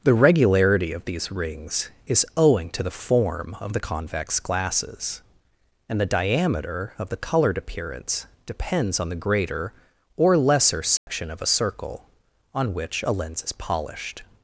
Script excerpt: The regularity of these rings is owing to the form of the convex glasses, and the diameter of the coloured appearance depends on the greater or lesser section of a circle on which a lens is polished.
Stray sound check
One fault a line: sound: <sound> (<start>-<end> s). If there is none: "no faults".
sound: dropout (11.0-11.1 s)